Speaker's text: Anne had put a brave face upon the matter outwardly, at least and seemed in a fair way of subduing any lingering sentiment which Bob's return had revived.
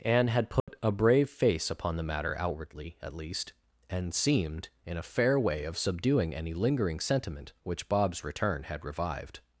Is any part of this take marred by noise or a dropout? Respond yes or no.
yes